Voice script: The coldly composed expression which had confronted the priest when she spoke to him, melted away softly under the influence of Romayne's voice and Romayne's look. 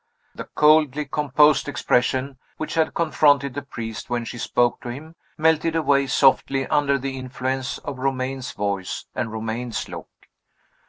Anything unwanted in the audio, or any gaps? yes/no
no